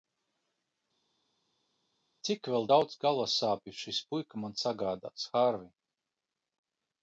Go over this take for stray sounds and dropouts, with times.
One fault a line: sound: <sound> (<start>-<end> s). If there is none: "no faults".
no faults